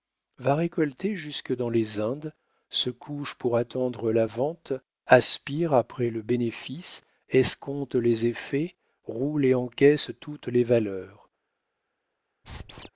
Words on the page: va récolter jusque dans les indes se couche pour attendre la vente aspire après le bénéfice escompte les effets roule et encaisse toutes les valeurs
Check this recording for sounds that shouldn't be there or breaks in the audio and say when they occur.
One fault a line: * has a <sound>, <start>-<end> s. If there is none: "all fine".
* has a squeak, 12.4-12.9 s